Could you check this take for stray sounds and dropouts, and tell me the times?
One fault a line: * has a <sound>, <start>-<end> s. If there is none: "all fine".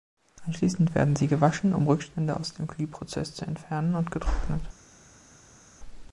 all fine